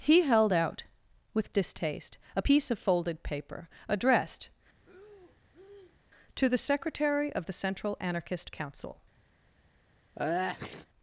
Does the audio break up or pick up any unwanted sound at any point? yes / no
yes